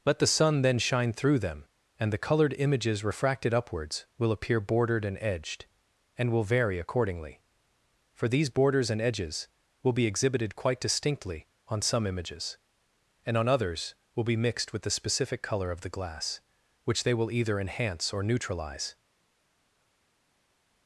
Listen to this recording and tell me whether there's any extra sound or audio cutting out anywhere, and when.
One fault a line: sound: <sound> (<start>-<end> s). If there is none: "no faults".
no faults